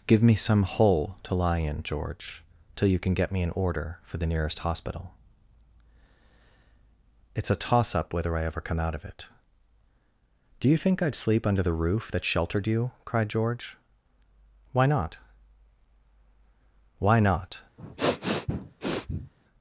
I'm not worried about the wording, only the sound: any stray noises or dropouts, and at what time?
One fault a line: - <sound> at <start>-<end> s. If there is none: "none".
- sniff at 17.8-19.3 s